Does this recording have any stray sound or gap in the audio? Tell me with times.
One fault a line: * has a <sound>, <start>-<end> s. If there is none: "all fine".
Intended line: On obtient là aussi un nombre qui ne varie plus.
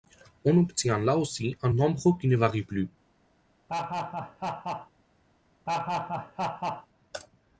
* has a laugh, 3.7-4.9 s
* has a laugh, 5.7-6.9 s